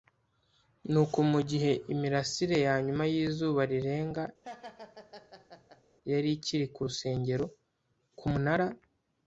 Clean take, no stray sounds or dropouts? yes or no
no